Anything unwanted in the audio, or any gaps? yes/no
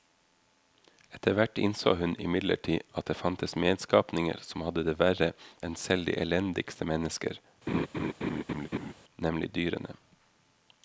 yes